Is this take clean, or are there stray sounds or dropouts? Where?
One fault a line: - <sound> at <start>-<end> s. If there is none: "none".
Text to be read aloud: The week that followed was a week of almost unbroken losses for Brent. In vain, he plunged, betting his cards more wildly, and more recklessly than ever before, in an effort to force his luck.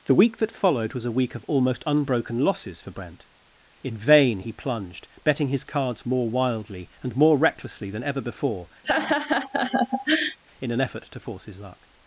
- laugh at 8.8-10.4 s